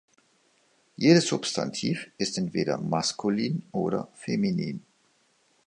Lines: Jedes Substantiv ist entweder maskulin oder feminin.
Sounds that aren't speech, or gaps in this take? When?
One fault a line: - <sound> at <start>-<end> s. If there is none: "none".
none